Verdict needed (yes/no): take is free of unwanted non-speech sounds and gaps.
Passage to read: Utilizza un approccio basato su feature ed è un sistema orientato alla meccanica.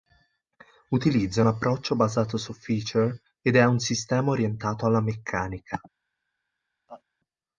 no